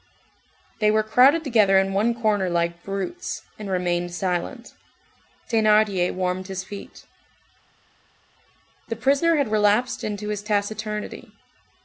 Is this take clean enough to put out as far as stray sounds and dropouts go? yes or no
yes